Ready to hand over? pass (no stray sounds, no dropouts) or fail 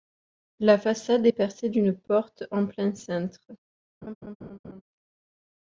fail